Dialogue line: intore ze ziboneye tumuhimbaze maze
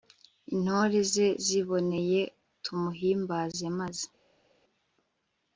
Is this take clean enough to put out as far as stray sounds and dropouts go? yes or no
yes